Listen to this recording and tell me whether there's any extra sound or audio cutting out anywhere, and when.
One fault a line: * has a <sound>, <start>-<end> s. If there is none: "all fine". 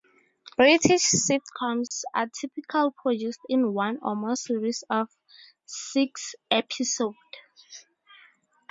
* has a dropout, 1.9-1.9 s